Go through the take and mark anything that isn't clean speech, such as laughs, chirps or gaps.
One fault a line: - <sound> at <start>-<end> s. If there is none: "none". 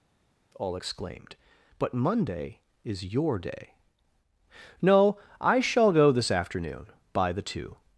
none